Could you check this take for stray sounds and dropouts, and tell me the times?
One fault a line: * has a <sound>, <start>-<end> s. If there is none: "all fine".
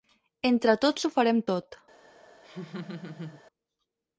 * has a laugh, 2.4-3.4 s